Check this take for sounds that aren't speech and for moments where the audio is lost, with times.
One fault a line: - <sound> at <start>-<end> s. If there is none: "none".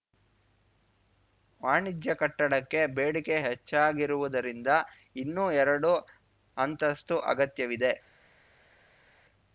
none